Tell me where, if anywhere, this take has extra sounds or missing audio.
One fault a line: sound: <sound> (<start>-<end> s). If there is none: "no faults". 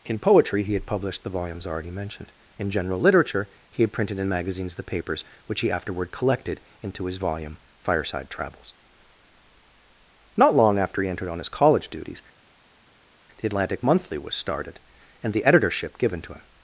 no faults